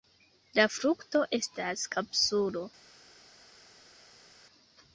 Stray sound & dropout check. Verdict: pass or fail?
pass